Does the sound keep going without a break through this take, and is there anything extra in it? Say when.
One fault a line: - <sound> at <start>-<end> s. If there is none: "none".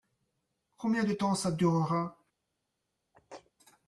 - sneeze at 3.1-3.5 s